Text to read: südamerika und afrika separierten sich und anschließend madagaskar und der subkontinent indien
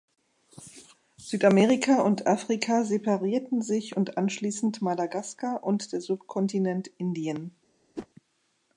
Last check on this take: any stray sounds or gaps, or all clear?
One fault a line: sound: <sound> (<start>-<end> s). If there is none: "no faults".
sound: whoosh (8.0-8.1 s)